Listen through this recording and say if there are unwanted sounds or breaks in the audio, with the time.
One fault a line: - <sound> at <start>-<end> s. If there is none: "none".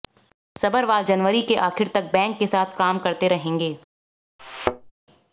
- thud at 4.4-4.9 s